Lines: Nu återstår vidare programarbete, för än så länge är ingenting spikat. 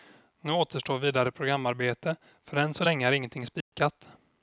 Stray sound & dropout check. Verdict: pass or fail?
fail